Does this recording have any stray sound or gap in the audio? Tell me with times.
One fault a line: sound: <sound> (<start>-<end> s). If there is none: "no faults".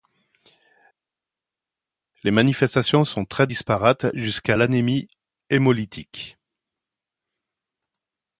no faults